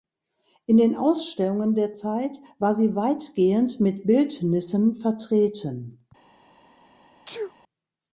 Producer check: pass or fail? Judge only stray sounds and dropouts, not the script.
fail